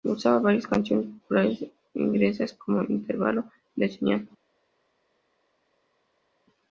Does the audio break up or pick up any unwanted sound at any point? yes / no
no